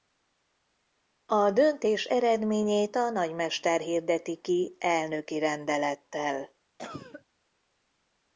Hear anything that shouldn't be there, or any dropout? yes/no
yes